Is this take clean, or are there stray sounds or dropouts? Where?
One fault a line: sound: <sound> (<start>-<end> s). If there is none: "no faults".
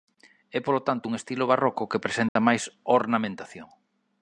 sound: dropout (2.3-2.4 s)